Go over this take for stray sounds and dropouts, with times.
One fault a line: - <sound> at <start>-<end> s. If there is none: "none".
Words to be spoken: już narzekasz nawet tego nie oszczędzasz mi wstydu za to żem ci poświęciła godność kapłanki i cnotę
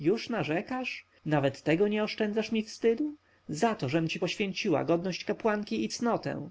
none